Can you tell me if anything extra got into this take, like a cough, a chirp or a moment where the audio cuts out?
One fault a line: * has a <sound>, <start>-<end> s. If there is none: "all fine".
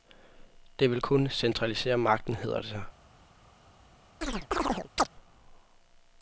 * has a chirp, 4.2-5.1 s